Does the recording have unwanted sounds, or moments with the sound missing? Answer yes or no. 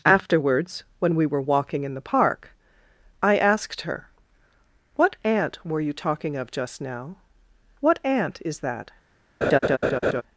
yes